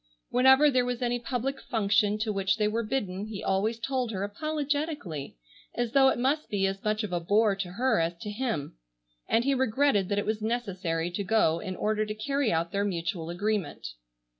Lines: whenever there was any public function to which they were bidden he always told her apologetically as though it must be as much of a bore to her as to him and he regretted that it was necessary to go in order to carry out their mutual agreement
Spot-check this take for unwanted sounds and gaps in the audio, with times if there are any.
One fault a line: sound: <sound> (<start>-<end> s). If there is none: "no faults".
no faults